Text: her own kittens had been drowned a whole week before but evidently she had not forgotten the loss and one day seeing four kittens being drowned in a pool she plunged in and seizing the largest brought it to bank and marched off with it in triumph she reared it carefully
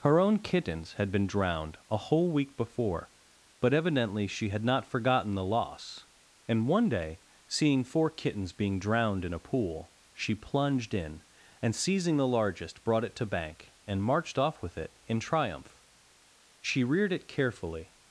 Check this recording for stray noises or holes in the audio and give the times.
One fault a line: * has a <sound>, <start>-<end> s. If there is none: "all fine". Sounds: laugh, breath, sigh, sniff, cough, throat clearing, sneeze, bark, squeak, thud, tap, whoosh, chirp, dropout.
all fine